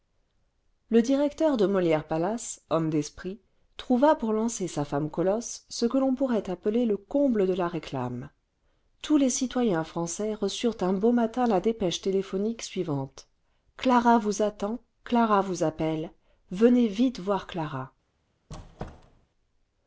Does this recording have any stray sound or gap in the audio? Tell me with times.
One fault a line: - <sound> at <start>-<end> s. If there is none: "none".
- squeak at 18.5-19.3 s